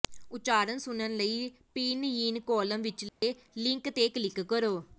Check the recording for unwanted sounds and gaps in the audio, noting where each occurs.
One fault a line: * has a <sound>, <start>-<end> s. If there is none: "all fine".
* has a dropout, 3.1-3.2 s